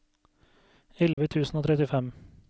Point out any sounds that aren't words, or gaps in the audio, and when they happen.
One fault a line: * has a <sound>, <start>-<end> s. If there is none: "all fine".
* has a dropout, 1.1-1.2 s